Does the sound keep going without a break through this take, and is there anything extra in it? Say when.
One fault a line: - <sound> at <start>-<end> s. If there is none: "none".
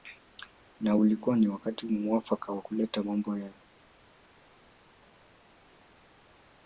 none